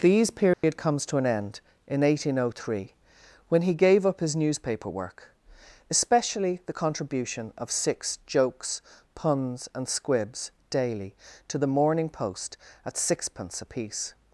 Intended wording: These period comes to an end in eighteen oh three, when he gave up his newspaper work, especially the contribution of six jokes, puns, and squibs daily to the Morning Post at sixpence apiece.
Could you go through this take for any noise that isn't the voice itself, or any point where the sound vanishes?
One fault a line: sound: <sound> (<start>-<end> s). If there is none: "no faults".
sound: dropout (0.5-0.6 s)